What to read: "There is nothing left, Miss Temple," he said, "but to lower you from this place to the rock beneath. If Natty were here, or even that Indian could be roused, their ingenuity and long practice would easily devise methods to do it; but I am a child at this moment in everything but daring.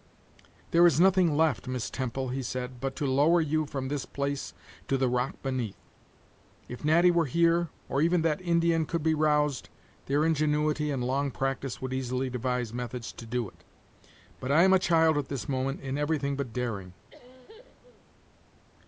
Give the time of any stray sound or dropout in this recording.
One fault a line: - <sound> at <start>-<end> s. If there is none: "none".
- cough at 17.1-18.1 s